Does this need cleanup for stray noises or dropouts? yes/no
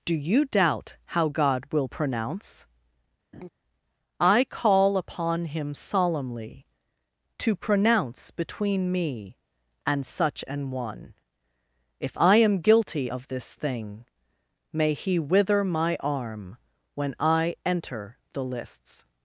yes